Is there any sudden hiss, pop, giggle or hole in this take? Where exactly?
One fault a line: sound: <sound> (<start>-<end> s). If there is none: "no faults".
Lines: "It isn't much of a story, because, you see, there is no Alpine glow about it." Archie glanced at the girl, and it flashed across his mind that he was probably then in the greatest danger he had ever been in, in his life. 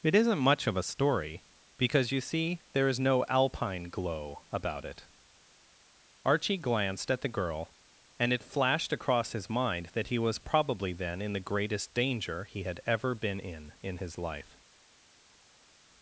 no faults